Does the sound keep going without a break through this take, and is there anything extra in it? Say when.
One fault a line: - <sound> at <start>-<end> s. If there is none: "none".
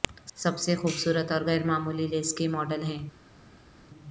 none